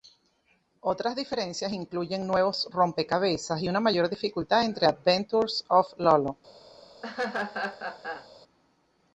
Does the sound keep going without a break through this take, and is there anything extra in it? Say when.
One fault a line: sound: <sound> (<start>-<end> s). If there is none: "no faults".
sound: laugh (7.0-8.3 s)